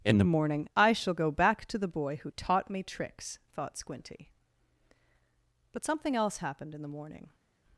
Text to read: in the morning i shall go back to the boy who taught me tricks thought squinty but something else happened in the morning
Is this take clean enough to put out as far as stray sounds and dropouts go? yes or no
yes